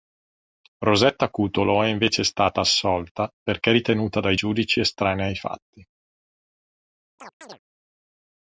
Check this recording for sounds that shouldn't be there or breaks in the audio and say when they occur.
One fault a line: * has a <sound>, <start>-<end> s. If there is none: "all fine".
* has a chirp, 7.2-7.6 s